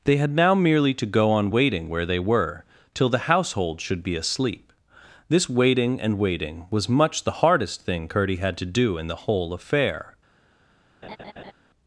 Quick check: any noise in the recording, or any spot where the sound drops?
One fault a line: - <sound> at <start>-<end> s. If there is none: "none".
- laugh at 11.0-11.5 s